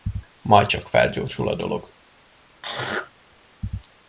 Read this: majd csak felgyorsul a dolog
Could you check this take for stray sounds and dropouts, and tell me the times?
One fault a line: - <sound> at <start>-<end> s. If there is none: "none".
- throat clearing at 2.6-3.1 s